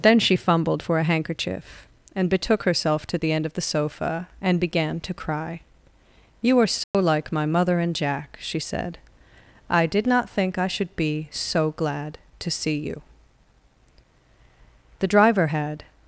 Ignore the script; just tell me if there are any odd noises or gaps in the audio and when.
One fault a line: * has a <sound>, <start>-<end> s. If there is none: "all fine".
* has a dropout, 6.8-6.9 s